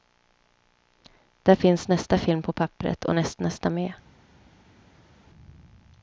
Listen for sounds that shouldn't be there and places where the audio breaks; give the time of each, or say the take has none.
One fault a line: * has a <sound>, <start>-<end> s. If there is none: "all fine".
all fine